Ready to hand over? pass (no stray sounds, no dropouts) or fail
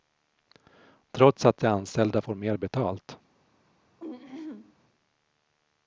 fail